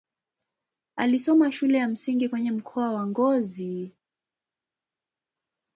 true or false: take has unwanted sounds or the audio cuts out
false